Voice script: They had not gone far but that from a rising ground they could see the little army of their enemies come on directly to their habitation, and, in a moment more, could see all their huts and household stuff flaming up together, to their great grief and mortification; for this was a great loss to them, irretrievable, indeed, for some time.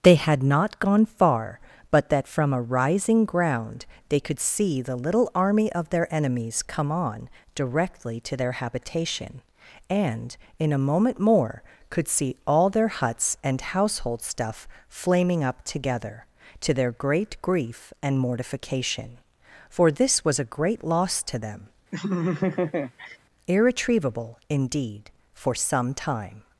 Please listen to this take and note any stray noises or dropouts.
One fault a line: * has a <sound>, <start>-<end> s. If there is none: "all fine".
* has a laugh, 21.9-23.2 s